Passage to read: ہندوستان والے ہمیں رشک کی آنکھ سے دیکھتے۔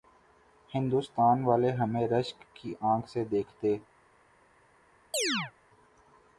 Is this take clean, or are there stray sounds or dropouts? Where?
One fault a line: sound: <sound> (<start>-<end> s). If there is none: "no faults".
sound: chirp (5.1-5.5 s)